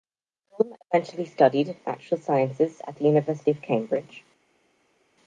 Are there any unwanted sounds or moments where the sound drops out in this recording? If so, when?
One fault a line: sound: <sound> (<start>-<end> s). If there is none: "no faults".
no faults